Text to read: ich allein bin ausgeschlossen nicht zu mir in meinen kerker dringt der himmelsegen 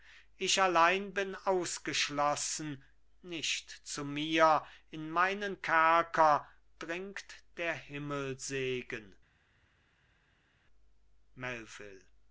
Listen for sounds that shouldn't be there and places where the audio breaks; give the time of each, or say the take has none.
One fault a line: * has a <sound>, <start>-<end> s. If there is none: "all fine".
all fine